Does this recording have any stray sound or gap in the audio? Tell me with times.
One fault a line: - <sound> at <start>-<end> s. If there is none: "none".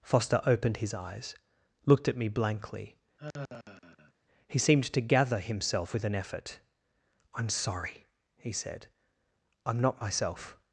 - sigh at 3.2-4.1 s